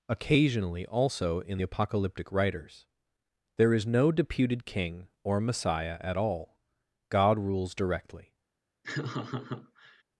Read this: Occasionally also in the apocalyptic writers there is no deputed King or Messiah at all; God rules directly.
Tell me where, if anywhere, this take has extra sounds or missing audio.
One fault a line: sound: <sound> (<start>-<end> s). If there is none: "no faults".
sound: laugh (8.8-10.0 s)